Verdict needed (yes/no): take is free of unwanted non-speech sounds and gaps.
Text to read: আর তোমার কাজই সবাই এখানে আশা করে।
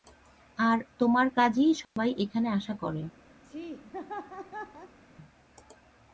no